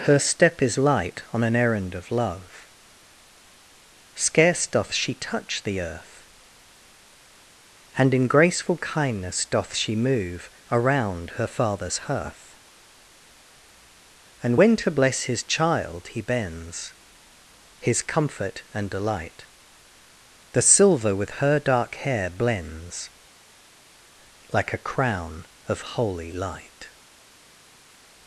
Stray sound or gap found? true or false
false